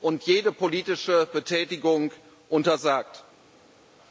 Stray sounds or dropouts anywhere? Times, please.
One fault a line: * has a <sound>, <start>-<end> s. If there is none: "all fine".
all fine